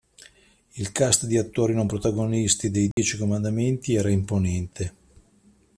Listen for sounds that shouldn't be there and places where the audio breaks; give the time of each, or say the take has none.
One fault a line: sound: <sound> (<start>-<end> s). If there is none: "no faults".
sound: dropout (2.9-3.0 s)